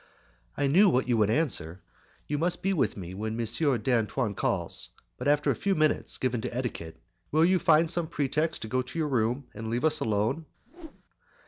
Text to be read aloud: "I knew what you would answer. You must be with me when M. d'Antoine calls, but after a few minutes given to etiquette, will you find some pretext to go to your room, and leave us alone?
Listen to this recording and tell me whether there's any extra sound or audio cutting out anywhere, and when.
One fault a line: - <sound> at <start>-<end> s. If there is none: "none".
- whoosh at 10.7-11.0 s